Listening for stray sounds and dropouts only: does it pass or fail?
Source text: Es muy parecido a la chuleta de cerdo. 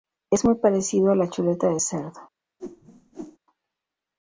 fail